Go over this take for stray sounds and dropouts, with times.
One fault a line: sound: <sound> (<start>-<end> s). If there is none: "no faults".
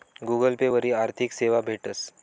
no faults